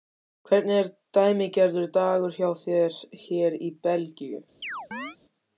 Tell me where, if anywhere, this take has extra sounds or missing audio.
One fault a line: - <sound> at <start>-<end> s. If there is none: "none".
- chirp at 4.6-5.2 s